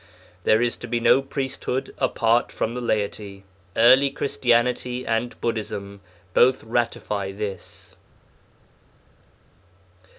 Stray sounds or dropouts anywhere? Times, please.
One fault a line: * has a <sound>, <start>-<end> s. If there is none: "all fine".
all fine